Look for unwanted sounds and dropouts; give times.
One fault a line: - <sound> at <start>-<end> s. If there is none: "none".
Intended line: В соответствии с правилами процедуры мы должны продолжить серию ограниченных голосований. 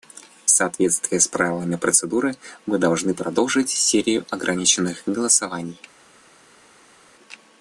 none